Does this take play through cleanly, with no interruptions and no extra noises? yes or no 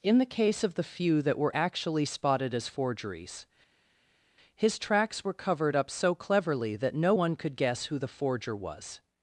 yes